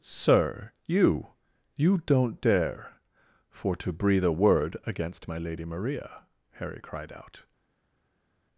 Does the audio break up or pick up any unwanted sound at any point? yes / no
no